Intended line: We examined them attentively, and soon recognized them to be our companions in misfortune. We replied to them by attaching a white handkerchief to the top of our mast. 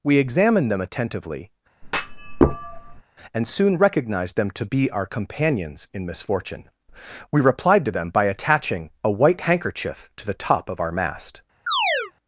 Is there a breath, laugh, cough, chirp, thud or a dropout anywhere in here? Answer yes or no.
yes